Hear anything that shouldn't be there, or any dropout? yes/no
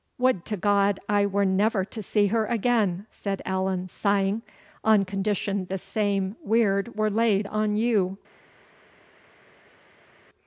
no